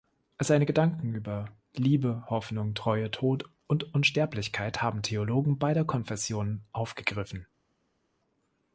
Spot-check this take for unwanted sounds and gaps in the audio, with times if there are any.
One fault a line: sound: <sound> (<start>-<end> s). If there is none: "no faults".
no faults